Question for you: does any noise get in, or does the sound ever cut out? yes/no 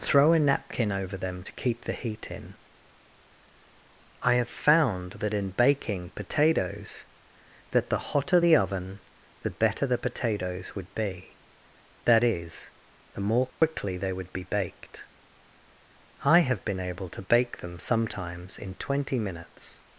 yes